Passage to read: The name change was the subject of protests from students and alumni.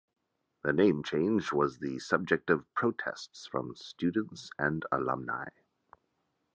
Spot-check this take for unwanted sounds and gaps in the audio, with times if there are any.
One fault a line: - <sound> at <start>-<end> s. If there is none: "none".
none